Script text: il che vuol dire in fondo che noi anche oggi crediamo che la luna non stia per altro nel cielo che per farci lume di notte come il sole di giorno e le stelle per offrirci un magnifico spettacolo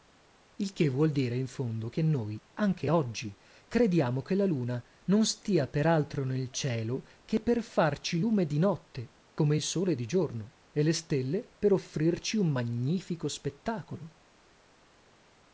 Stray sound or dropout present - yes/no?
no